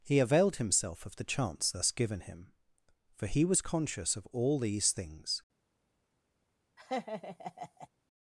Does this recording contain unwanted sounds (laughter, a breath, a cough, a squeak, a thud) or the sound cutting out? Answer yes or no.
yes